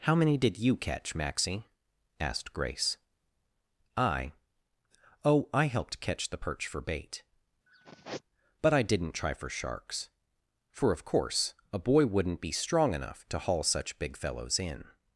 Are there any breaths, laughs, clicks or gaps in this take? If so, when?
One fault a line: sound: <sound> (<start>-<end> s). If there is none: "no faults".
sound: sigh (7.7-8.2 s)